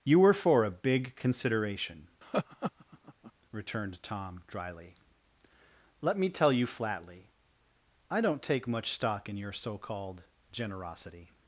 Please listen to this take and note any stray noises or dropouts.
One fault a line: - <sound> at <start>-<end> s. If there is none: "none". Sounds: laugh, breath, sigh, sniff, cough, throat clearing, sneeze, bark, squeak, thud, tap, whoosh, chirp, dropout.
- laugh at 2.2-3.3 s